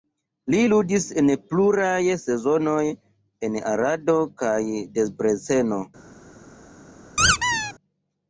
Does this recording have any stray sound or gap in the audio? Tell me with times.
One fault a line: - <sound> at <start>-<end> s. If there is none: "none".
- squeak at 7.2-7.7 s